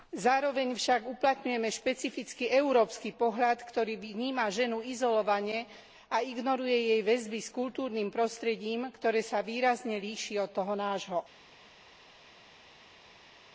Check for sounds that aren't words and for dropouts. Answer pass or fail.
pass